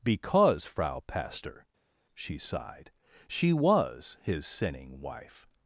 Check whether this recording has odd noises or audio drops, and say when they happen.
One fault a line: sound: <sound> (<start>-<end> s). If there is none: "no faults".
no faults